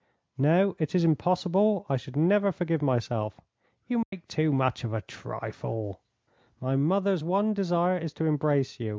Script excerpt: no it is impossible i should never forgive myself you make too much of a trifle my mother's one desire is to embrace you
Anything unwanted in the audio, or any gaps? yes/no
yes